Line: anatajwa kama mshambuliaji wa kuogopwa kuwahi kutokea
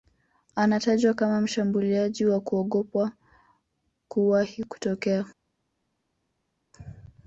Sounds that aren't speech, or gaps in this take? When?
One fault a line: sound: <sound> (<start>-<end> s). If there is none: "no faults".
no faults